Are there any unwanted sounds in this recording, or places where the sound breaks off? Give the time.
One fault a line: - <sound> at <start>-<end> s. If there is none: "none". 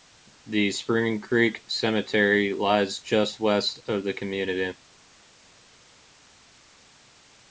none